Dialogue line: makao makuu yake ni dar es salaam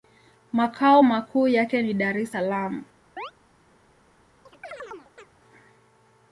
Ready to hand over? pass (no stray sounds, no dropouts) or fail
fail